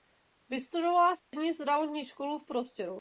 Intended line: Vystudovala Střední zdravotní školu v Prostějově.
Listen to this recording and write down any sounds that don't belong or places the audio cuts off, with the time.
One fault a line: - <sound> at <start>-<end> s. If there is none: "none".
- dropout at 1.2-1.3 s